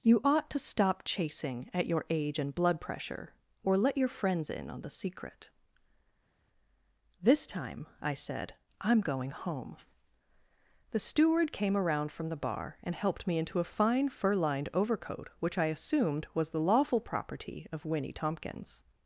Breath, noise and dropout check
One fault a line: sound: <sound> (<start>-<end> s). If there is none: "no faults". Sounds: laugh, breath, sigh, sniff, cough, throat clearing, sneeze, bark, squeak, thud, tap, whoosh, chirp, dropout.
no faults